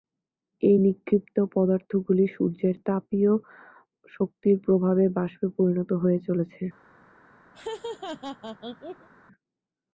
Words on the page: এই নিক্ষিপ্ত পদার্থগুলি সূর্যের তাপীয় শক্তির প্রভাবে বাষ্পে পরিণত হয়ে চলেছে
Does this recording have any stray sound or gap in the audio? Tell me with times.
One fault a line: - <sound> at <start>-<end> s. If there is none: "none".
- laugh at 7.5-9.1 s